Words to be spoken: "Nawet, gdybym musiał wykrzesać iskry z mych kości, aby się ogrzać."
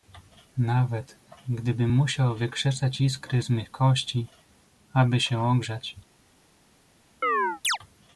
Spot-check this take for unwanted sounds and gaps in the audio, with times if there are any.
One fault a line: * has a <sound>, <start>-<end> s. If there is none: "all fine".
* has a chirp, 7.2-7.8 s